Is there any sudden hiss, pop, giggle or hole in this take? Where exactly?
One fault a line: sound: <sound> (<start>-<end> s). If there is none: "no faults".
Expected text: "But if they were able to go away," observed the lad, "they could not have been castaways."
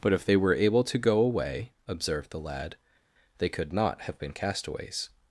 no faults